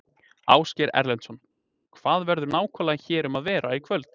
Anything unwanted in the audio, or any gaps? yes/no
no